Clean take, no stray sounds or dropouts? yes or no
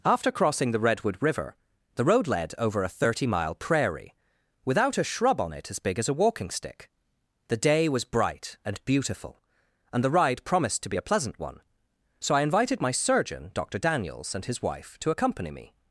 yes